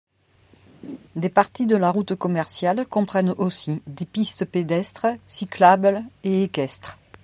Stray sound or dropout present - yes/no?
yes